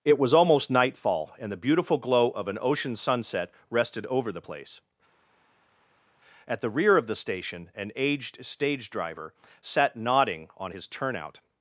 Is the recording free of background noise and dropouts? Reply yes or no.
yes